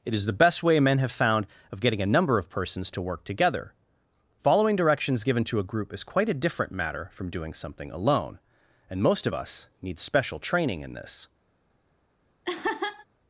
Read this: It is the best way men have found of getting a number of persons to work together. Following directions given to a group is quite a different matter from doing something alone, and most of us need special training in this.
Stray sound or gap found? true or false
true